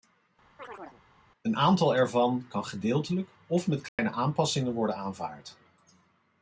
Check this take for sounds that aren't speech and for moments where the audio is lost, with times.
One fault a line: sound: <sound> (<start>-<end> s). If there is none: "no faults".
sound: chirp (0.6-1.0 s)
sound: dropout (3.9-4.0 s)